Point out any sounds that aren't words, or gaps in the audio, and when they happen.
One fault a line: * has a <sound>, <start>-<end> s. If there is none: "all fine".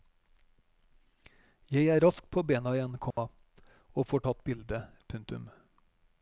* has a dropout, 3.1-3.2 s